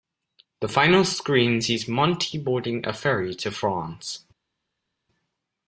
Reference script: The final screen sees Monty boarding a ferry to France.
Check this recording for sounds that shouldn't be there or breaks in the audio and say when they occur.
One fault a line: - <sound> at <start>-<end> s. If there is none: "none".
none